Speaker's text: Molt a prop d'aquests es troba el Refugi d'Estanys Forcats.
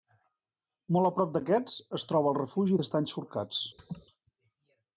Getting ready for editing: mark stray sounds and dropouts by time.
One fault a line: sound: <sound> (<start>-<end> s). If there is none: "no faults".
sound: laugh (3.8-4.1 s)